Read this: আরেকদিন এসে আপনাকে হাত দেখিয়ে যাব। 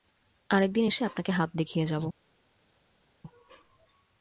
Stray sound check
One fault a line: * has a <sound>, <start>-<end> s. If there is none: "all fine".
all fine